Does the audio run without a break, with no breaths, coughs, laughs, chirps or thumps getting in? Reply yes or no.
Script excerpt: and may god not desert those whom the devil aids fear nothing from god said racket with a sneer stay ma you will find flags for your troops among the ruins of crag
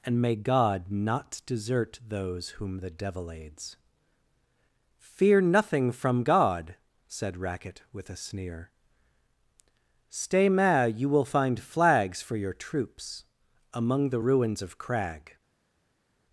yes